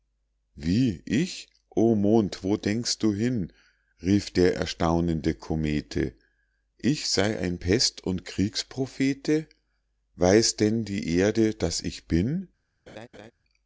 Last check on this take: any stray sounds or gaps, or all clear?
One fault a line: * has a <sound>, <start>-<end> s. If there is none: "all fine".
* has a laugh, 12.9-13.3 s